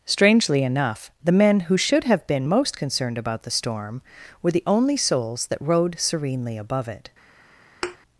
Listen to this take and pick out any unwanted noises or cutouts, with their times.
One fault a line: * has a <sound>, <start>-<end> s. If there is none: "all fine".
* has a thud, 7.8-8.0 s